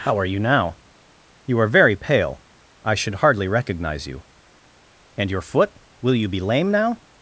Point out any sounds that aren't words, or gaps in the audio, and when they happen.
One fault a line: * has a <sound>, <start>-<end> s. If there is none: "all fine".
all fine